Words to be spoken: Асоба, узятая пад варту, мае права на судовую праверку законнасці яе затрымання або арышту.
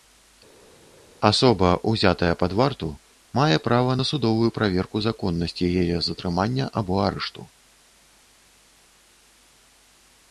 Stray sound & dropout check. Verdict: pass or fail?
pass